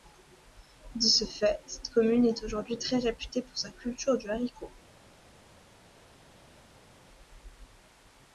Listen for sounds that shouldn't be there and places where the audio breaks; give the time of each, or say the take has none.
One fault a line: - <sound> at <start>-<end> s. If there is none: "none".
none